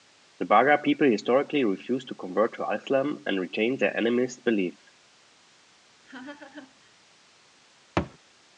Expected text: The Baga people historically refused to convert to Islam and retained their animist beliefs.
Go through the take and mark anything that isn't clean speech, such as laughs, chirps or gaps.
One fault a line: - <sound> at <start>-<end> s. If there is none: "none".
- laugh at 6.0-7.0 s
- thud at 8.0-8.2 s